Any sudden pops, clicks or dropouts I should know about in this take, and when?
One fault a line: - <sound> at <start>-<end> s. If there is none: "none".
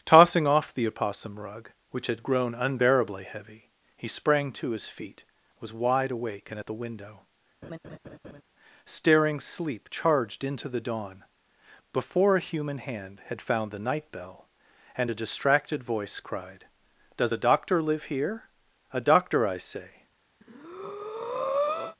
- laugh at 7.6-8.4 s
- breath at 20.4-22.0 s